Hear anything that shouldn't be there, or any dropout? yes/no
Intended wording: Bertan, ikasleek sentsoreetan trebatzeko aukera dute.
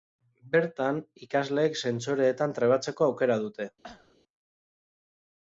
yes